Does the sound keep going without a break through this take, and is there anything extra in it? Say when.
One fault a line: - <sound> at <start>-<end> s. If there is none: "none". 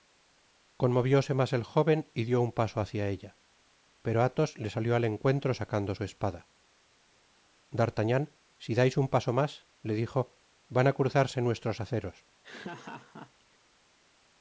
- laugh at 12.4-13.6 s